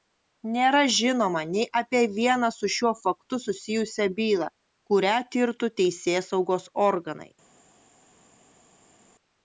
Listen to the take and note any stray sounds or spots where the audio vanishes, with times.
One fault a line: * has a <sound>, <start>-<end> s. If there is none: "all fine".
all fine